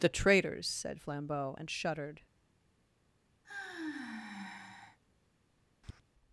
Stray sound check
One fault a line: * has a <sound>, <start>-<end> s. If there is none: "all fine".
* has a sigh, 3.4-5.0 s
* has a tap, 5.8-6.0 s